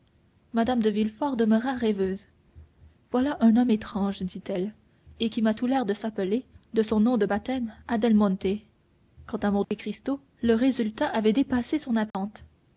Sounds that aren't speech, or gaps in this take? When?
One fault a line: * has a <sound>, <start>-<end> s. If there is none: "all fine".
* has a dropout, 9.6-9.7 s
* has a dropout, 12.1-12.1 s